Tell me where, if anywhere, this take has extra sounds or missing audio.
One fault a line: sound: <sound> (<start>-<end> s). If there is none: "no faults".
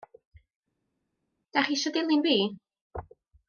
no faults